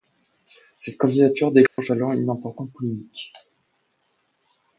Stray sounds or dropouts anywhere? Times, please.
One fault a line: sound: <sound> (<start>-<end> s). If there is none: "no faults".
sound: dropout (1.7-1.8 s)